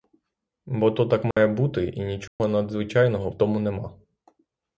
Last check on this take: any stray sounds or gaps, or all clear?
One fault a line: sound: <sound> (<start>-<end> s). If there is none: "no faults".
sound: dropout (1.3-1.4 s)
sound: dropout (2.3-2.4 s)